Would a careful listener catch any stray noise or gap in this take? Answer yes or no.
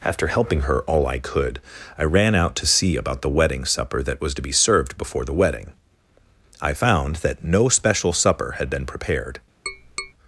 yes